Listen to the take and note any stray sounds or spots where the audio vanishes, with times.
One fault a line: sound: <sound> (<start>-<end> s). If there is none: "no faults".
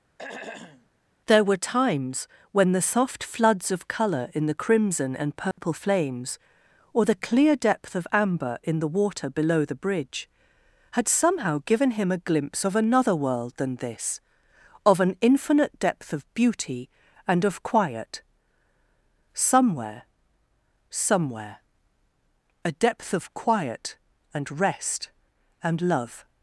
sound: throat clearing (0.2-0.9 s)
sound: dropout (5.5-5.6 s)